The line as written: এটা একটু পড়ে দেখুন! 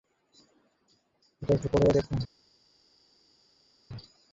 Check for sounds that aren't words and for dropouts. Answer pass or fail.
pass